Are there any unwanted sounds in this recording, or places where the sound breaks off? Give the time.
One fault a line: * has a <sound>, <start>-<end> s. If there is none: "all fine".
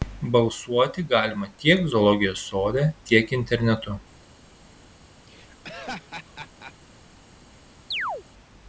* has a laugh, 5.3-6.7 s
* has a chirp, 7.9-8.2 s